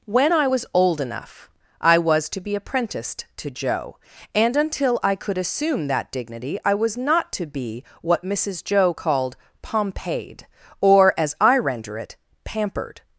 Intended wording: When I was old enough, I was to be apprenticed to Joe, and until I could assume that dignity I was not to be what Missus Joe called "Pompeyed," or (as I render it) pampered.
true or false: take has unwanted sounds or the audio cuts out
false